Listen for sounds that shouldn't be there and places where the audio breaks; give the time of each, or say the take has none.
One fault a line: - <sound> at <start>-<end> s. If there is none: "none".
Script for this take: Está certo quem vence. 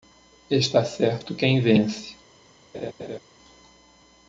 - laugh at 2.7-3.2 s